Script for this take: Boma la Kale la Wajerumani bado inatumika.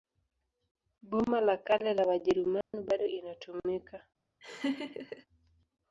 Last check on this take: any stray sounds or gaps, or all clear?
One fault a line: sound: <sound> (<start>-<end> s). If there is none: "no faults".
sound: dropout (2.6-2.7 s)
sound: laugh (4.4-5.3 s)